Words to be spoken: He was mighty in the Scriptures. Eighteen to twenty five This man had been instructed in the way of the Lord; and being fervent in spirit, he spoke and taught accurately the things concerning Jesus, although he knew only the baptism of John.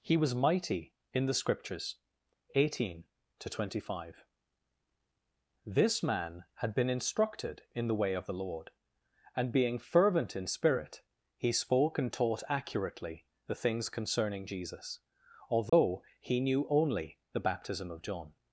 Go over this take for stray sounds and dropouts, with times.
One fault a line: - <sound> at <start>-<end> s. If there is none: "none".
- dropout at 15.7-15.7 s